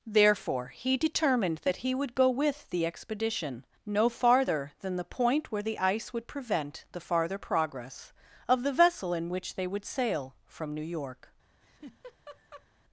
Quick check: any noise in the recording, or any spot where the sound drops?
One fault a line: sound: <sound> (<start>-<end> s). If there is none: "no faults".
sound: laugh (11.6-12.7 s)